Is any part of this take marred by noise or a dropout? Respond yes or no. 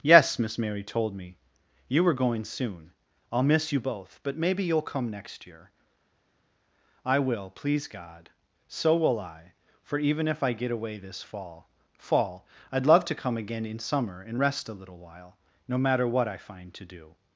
no